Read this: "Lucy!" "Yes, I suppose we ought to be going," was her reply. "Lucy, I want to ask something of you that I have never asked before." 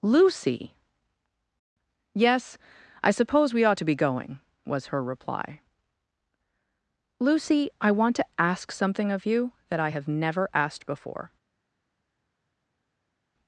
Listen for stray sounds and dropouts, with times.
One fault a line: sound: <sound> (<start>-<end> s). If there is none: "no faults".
no faults